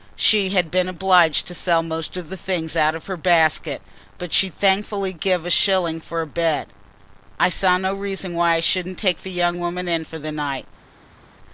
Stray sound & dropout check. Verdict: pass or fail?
pass